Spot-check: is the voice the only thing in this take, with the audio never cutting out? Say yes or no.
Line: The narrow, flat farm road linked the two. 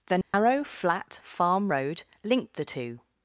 no